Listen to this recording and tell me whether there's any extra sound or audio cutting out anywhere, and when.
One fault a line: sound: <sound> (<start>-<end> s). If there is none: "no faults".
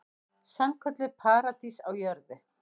no faults